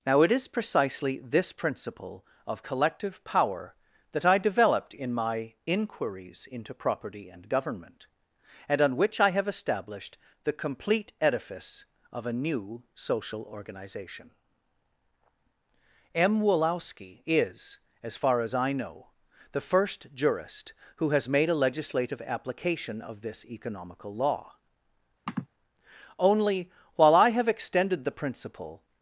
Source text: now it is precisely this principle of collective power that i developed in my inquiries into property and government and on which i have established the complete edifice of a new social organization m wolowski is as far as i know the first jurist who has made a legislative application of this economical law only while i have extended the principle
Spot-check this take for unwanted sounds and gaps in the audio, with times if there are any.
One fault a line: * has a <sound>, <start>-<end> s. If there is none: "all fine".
* has a sniff, 25.3-25.5 s